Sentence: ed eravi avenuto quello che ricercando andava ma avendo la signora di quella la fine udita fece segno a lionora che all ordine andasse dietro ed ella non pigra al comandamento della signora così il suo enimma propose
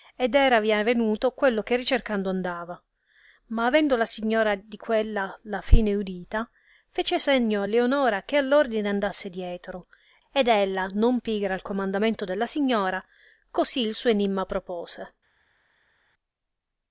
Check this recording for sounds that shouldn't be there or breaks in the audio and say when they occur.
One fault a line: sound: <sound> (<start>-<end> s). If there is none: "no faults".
no faults